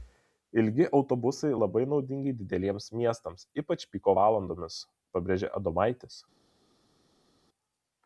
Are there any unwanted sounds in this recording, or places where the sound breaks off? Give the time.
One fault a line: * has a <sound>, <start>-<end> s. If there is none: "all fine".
all fine